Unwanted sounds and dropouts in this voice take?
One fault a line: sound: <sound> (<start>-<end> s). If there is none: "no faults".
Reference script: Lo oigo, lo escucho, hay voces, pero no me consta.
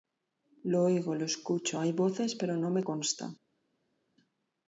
no faults